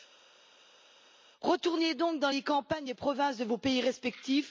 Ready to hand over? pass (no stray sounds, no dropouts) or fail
pass